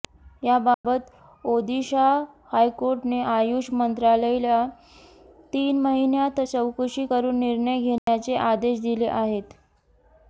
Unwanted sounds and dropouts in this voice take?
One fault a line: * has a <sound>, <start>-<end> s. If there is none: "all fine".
* has a dropout, 0.7-0.8 s
* has a dropout, 8.0-8.1 s